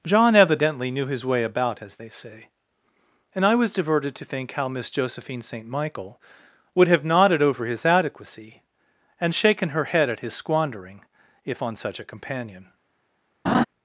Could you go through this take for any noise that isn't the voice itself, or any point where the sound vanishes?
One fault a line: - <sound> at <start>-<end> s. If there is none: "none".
- laugh at 13.5-13.6 s